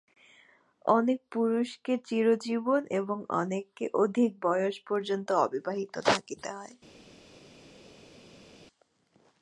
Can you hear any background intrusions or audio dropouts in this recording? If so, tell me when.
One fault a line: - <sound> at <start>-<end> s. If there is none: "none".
none